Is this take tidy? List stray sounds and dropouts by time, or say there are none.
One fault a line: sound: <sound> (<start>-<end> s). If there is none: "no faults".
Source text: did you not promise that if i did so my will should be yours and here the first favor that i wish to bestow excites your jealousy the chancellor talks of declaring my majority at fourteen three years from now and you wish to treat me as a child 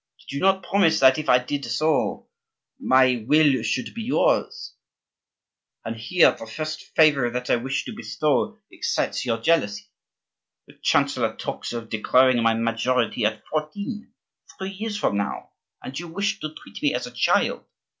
no faults